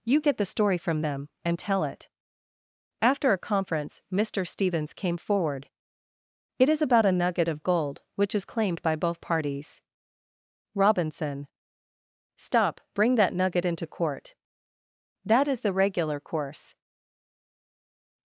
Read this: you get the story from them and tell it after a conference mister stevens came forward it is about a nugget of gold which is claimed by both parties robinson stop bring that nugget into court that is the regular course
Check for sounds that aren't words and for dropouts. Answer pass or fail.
pass